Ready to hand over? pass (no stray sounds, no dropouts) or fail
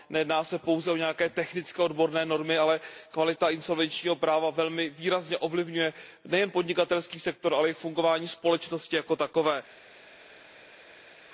pass